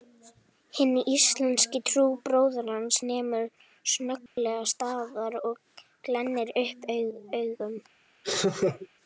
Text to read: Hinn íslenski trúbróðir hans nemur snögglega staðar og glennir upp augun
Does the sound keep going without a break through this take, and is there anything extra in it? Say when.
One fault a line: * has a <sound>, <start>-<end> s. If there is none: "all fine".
* has a dropout, 4.3-4.4 s
* has a laugh, 8.2-8.9 s